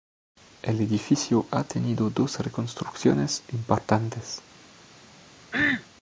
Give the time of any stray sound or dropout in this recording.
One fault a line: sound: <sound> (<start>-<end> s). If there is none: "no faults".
sound: cough (5.5-5.9 s)